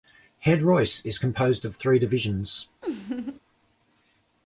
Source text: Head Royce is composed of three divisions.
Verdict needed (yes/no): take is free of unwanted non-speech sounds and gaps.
no